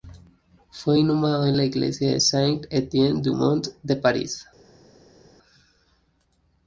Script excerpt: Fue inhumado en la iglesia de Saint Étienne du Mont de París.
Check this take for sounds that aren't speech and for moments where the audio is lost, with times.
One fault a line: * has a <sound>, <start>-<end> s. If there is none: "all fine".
all fine